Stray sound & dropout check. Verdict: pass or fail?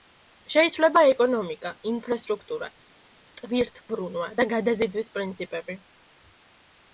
pass